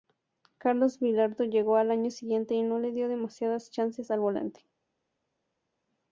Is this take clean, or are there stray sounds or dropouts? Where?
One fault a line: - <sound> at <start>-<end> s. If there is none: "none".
none